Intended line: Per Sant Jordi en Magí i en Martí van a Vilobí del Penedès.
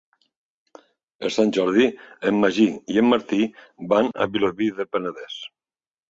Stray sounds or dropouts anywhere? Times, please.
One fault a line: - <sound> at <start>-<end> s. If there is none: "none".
none